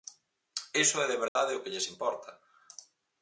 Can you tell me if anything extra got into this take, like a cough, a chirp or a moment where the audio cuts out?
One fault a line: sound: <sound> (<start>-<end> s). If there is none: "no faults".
sound: dropout (1.3-1.4 s)